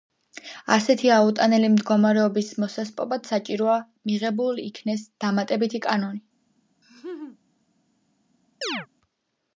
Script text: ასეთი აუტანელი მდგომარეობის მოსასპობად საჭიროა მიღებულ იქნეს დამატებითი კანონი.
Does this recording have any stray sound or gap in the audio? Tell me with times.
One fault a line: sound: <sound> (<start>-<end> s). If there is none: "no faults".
sound: laugh (6.8-7.4 s)
sound: chirp (8.6-8.9 s)